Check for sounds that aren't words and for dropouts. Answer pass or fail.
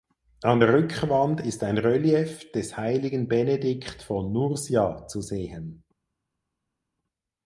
pass